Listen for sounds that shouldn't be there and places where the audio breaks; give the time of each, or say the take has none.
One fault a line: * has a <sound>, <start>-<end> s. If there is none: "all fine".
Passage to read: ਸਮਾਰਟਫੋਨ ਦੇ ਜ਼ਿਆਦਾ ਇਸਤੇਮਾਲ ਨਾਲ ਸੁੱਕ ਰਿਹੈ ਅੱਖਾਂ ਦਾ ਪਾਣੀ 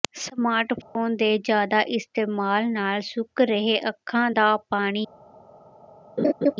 * has a dropout, 0.8-1.0 s
* has a laugh, 6.2-6.5 s